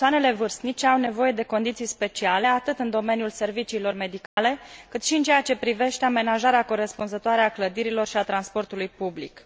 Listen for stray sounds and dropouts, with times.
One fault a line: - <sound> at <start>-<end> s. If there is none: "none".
- dropout at 4.3-4.4 s